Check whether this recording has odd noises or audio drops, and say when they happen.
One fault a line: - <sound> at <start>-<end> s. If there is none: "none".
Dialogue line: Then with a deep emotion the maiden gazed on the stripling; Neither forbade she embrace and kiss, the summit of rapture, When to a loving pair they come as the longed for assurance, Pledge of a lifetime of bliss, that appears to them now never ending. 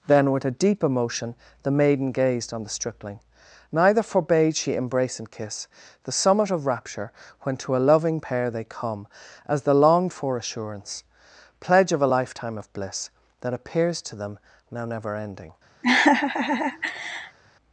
- laugh at 15.8-17.4 s